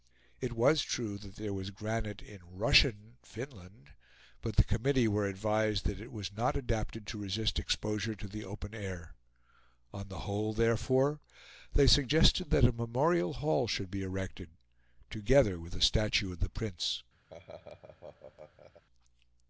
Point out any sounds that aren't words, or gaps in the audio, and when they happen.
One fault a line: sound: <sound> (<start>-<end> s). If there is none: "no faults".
sound: laugh (17.3-18.8 s)